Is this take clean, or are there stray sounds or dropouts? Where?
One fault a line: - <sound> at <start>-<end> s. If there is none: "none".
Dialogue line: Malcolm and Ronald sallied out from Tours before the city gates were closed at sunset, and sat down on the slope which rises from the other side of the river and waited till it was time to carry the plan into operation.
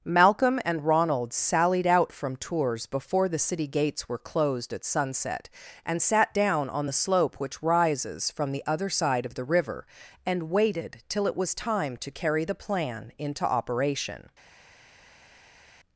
none